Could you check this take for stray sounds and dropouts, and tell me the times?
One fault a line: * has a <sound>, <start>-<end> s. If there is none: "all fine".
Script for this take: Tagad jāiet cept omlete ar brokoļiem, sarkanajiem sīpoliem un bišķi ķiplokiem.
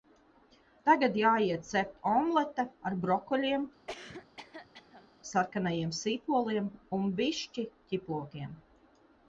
* has a cough, 3.9-5.1 s